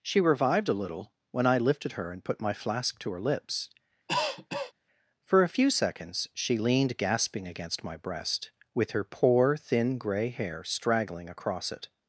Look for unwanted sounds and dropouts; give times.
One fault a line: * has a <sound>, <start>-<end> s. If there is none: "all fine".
* has a cough, 4.1-4.7 s